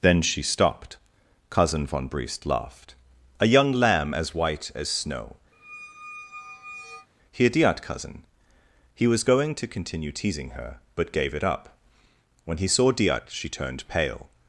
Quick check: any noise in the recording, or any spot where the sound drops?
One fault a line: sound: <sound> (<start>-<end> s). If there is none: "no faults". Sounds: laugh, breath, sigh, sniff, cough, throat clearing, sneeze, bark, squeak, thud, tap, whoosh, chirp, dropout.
sound: squeak (5.5-7.1 s)